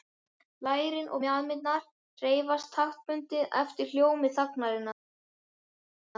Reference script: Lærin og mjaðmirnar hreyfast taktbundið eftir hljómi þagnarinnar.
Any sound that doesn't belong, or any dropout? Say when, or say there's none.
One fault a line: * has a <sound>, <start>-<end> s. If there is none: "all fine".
all fine